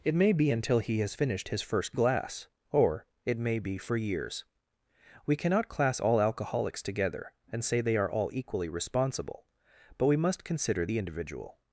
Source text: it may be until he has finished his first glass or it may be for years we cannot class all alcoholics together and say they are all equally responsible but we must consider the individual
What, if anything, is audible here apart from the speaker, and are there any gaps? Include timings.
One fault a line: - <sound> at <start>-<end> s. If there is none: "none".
none